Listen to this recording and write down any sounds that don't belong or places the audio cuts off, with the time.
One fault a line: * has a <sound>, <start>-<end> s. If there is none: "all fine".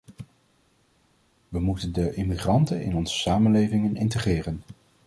all fine